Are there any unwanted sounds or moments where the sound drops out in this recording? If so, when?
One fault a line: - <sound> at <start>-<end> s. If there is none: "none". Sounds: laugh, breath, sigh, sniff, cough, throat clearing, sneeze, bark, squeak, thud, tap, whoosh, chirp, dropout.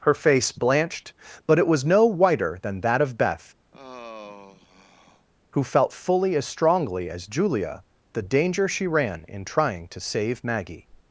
- sigh at 3.7-5.3 s